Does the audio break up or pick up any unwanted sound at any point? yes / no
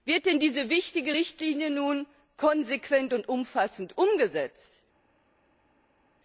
no